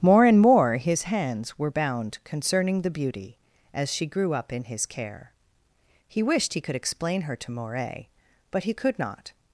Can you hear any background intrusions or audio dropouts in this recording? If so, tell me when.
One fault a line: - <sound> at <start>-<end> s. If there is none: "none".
none